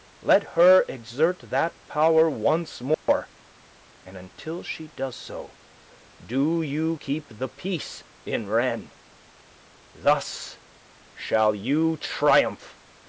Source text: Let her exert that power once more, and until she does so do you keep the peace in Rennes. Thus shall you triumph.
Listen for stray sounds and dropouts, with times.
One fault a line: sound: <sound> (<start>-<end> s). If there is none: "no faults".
sound: dropout (2.9-3.1 s)